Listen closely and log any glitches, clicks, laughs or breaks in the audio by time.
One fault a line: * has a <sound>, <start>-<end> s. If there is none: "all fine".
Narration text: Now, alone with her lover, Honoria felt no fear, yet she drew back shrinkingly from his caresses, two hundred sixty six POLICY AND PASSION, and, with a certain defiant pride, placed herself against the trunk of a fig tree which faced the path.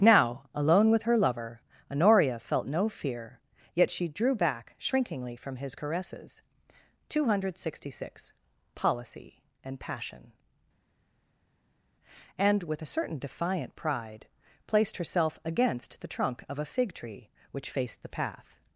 all fine